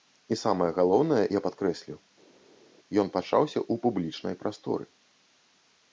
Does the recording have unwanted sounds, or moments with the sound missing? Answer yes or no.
no